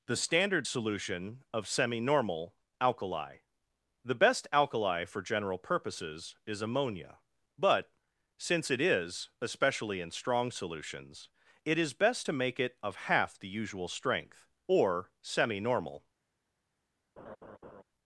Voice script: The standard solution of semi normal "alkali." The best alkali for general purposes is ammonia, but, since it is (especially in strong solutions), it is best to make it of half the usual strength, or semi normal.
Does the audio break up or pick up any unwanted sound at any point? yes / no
yes